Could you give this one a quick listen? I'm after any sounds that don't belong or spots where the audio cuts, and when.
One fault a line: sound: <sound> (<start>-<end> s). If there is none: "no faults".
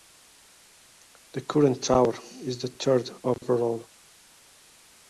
no faults